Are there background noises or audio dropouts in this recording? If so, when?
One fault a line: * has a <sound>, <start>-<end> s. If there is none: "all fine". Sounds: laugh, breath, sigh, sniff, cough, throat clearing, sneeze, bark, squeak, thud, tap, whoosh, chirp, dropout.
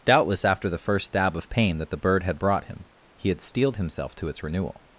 all fine